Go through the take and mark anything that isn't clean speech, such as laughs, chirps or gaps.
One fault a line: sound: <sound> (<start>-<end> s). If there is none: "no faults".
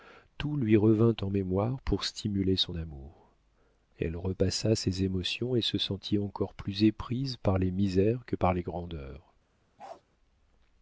sound: bark (9.8-10.0 s)